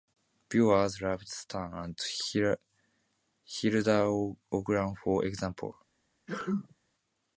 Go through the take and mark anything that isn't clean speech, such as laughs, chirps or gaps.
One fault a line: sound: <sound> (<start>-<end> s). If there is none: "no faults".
sound: sneeze (6.3-6.8 s)